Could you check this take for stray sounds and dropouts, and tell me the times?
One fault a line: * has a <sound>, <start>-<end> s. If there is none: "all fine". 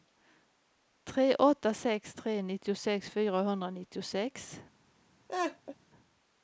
* has a laugh, 5.3-5.8 s